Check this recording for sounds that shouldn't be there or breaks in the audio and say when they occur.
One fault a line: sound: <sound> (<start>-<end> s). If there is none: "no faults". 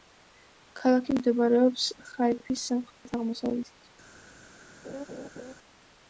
sound: dropout (2.9-3.1 s)
sound: laugh (4.8-5.5 s)